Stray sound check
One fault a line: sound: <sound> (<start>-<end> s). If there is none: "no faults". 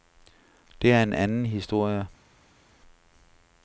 no faults